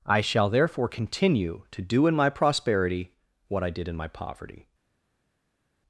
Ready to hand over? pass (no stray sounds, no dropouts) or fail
pass